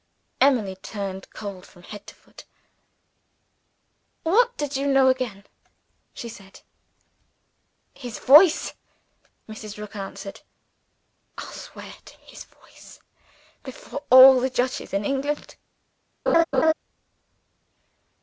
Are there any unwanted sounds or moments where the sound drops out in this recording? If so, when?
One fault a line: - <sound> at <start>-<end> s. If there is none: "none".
- laugh at 16.3-16.7 s